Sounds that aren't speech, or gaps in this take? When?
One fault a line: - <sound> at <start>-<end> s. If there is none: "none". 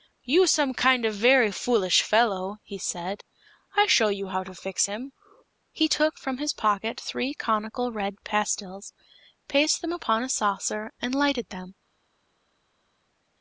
none